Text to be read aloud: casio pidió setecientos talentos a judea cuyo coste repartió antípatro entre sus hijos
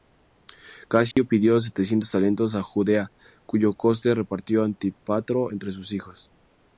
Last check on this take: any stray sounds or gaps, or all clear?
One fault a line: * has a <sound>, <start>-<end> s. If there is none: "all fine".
* has a dropout, 1.1-1.2 s